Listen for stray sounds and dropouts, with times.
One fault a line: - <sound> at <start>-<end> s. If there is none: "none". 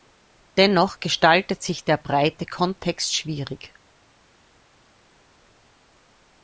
none